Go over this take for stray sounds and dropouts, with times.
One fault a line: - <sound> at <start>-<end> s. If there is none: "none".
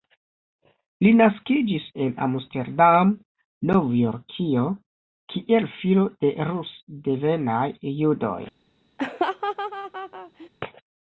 - laugh at 9.0-10.5 s